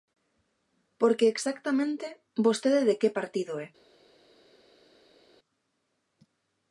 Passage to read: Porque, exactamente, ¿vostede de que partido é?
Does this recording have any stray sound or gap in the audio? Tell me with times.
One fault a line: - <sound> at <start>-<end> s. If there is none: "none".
none